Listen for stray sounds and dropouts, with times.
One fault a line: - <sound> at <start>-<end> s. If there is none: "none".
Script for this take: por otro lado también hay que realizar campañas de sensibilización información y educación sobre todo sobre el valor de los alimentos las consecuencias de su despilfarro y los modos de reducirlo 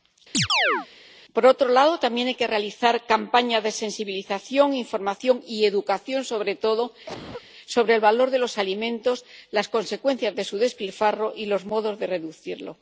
- chirp at 0.3-0.9 s
- cough at 7.1-7.5 s